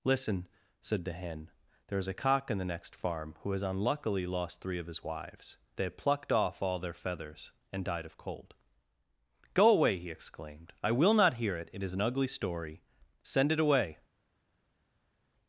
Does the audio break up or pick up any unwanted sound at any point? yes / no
no